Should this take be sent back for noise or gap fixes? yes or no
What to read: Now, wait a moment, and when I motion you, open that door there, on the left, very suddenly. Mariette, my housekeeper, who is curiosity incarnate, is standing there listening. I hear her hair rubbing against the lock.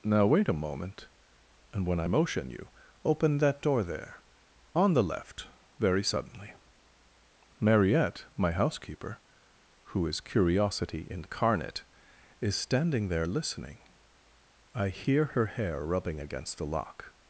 no